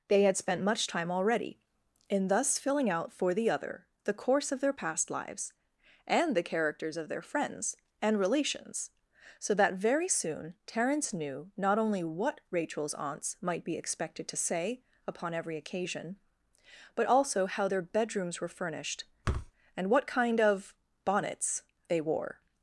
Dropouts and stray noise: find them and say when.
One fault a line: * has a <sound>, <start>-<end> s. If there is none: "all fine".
* has a thud, 19.2-19.5 s